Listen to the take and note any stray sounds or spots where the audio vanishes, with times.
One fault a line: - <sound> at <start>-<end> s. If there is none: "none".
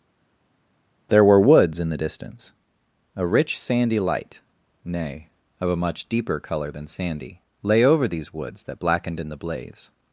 none